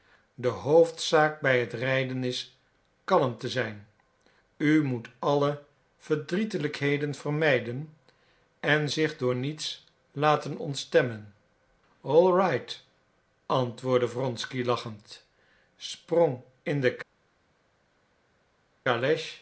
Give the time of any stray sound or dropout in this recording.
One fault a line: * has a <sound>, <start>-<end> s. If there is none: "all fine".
all fine